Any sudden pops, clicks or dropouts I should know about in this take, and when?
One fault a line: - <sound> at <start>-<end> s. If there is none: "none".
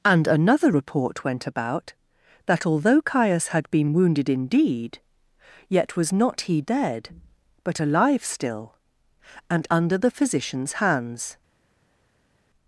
none